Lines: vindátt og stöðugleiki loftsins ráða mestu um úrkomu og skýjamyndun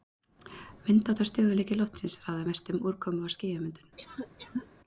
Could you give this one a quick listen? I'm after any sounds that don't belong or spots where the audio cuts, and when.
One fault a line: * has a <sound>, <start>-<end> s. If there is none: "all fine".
* has a cough, 4.0-4.7 s